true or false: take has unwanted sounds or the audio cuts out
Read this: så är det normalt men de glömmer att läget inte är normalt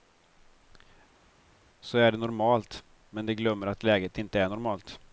false